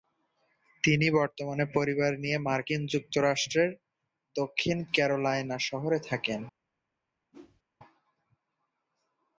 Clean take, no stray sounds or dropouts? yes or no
no